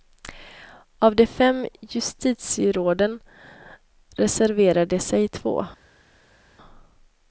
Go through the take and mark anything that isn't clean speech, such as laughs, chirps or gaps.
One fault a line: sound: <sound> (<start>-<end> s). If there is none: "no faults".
no faults